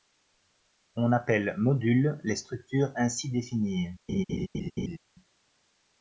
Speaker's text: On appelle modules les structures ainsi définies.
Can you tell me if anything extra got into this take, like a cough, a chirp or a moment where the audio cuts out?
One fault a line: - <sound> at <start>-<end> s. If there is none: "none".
- laugh at 4.1-5.0 s